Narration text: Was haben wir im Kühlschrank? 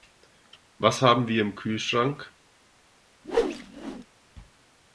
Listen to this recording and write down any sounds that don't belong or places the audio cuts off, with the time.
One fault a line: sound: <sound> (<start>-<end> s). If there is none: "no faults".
sound: whoosh (3.2-4.1 s)